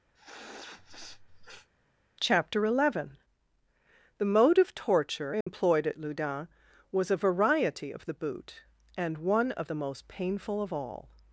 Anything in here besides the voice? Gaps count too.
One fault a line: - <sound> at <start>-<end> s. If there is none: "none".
- sniff at 0.1-1.7 s
- dropout at 5.4-5.5 s